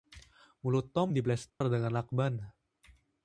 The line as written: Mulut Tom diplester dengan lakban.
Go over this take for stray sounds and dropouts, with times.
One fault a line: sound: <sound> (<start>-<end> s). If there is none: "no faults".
sound: dropout (1.5-1.6 s)